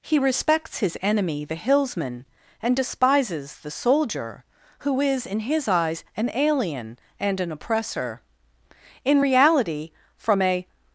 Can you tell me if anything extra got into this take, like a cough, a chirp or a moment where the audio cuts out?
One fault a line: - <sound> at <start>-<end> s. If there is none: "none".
none